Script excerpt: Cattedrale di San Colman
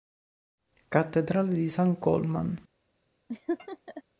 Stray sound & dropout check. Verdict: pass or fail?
fail